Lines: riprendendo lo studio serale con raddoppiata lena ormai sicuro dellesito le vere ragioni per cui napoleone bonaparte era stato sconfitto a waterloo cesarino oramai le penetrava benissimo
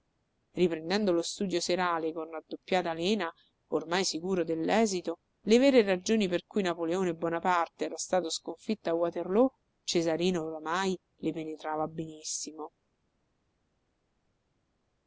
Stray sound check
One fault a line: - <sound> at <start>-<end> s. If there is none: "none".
none